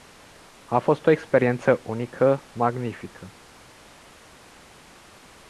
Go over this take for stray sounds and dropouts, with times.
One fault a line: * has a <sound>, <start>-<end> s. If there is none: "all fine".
all fine